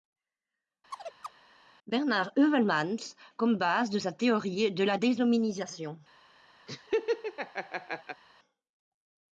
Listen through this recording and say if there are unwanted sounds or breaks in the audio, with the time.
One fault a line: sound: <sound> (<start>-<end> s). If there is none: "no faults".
sound: chirp (0.9-1.3 s)
sound: laugh (6.7-8.2 s)